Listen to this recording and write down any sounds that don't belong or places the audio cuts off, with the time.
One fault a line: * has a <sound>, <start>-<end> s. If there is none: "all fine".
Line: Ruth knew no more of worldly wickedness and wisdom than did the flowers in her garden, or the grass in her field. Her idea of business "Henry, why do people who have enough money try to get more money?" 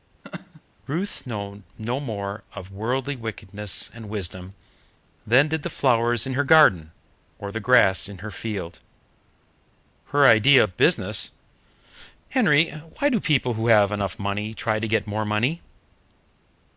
* has a laugh, 0.2-0.6 s